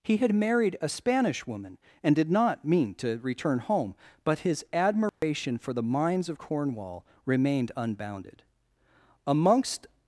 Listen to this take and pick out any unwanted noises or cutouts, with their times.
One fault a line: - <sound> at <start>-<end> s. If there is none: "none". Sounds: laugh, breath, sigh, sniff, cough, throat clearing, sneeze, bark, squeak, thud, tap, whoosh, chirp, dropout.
- dropout at 5.1-5.2 s